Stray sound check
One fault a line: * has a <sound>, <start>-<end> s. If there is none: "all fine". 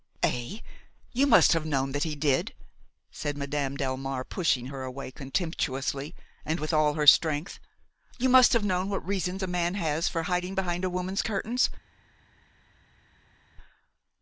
all fine